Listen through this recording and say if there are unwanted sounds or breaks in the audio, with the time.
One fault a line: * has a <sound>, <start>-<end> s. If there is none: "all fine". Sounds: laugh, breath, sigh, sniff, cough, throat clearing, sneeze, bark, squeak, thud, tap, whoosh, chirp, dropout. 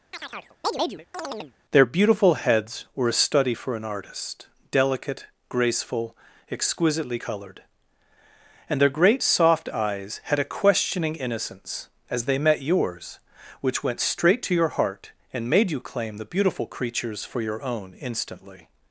* has a chirp, 0.1-1.5 s